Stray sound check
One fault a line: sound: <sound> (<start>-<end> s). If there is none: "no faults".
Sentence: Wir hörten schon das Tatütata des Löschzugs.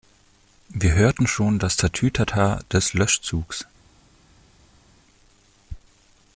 no faults